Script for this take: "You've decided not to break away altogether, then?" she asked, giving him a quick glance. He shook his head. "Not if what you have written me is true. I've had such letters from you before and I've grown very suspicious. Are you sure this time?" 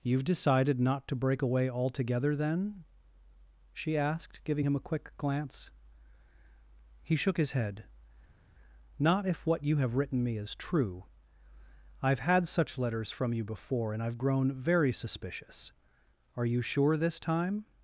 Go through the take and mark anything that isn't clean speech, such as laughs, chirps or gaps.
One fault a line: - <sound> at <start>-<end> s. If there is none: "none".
none